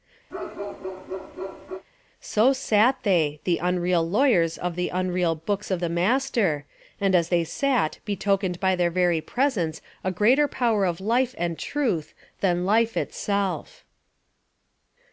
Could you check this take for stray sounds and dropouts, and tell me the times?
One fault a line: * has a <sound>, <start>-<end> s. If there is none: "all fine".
* has a bark, 0.3-1.8 s